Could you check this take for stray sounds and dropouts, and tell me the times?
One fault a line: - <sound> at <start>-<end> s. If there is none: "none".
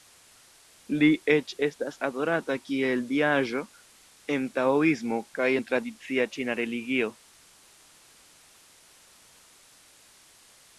none